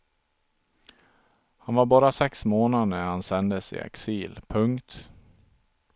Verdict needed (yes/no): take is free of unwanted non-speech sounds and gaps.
yes